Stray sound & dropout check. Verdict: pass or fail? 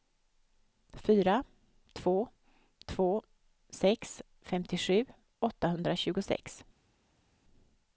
pass